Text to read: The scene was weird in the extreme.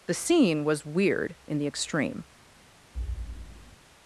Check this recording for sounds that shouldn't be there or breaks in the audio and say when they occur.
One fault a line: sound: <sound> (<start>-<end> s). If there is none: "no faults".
sound: thud (2.9-3.8 s)